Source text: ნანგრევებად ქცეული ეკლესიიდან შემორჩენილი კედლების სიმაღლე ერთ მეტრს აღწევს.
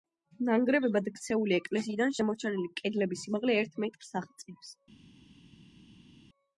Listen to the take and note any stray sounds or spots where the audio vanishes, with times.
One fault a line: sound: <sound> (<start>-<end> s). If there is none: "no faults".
no faults